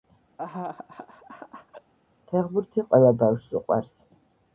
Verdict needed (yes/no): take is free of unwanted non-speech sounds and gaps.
no